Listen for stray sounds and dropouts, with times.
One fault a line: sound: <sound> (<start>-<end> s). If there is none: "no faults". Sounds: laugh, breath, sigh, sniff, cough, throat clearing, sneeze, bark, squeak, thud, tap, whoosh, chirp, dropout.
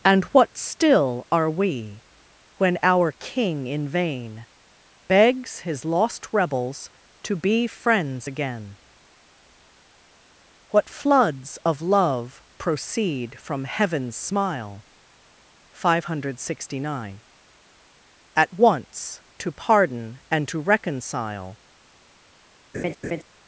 sound: laugh (22.7-23.2 s)